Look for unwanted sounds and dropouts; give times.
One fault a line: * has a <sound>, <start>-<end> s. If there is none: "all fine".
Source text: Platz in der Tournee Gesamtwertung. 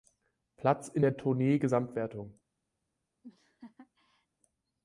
* has a laugh, 3.2-4.3 s